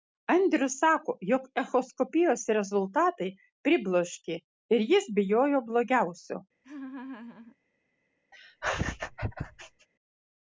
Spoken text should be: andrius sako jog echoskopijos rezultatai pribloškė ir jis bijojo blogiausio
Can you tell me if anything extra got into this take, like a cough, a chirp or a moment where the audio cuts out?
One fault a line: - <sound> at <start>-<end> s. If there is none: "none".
- laugh at 6.6-7.6 s
- laugh at 8.3-9.9 s